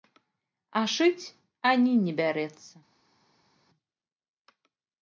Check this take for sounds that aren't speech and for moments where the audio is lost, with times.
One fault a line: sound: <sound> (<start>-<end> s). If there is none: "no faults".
no faults